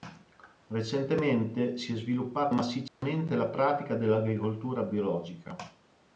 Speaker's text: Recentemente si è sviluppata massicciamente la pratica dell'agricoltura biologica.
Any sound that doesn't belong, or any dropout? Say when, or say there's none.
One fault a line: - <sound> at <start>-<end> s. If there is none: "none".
- dropout at 2.9-3.0 s